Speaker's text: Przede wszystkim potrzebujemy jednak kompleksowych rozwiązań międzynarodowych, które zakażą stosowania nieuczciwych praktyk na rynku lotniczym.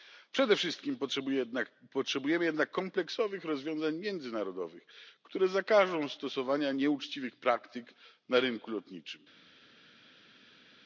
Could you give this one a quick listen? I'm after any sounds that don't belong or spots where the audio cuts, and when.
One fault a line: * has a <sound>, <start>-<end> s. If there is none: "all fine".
all fine